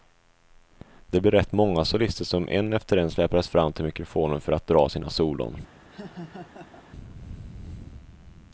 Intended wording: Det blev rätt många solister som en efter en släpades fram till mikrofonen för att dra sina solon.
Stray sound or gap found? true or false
true